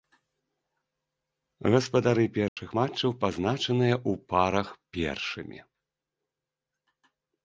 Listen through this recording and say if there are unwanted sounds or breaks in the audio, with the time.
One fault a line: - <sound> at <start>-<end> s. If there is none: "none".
- dropout at 2.5-2.6 s